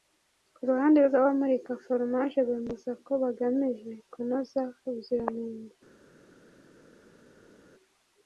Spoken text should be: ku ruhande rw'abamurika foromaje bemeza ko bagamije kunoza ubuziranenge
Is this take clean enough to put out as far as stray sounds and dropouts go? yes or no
yes